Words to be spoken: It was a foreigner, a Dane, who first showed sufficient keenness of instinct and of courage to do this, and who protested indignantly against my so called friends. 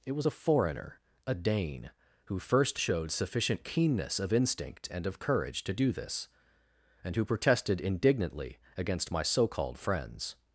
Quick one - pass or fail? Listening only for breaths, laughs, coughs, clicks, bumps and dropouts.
pass